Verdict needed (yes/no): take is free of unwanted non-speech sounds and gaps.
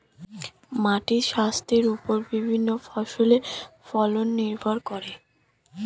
yes